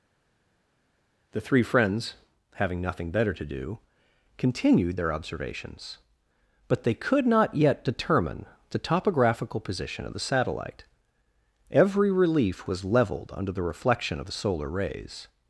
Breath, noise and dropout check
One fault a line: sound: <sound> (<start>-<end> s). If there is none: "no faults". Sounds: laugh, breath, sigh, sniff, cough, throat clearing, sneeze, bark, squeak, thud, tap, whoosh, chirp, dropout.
no faults